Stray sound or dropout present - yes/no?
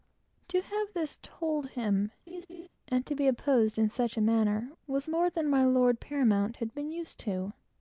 yes